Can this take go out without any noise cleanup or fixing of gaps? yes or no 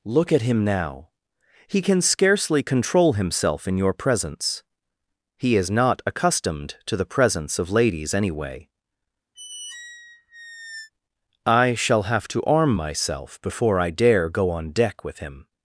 no